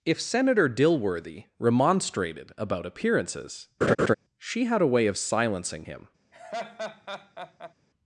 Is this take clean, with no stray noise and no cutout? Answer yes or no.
no